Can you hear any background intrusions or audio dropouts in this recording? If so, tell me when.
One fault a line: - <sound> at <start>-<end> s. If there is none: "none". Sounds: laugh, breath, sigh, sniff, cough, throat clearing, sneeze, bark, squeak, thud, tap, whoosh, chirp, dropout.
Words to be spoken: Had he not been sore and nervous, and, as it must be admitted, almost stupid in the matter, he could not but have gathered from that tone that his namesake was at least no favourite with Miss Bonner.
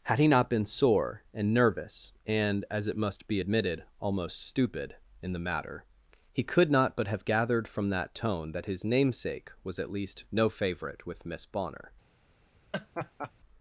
- laugh at 12.7-13.3 s